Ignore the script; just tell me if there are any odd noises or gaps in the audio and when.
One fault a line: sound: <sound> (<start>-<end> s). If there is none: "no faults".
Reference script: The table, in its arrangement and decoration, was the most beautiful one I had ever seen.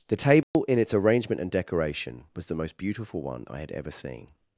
sound: dropout (0.4-0.5 s)